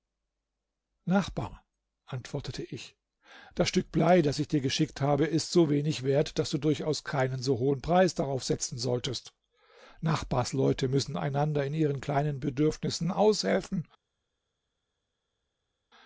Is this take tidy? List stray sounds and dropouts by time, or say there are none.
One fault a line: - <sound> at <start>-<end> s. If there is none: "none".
none